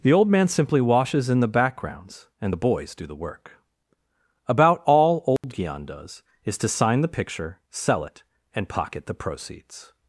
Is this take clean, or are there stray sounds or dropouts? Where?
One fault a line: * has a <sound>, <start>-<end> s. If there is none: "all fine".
* has a dropout, 5.4-5.4 s